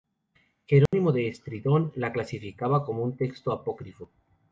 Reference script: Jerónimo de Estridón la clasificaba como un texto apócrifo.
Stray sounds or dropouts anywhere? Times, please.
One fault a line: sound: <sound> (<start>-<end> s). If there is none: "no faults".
sound: dropout (0.9-0.9 s)